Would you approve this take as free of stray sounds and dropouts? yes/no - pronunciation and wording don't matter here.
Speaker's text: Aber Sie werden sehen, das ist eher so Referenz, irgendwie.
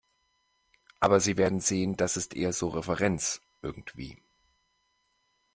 yes